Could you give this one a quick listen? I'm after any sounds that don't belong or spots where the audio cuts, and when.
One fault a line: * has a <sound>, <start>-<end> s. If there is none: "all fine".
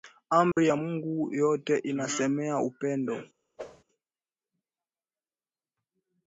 * has a dropout, 0.5-0.6 s
* has a whoosh, 3.6-3.8 s